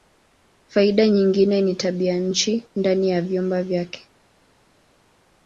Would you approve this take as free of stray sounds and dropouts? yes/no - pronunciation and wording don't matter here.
yes